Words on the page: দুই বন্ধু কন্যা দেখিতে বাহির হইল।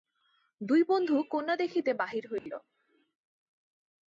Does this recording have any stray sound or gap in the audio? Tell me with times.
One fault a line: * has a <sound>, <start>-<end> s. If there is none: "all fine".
* has a dropout, 2.4-2.5 s